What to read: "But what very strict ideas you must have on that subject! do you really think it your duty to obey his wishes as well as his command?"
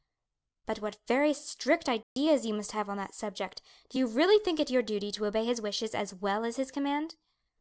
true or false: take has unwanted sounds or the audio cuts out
true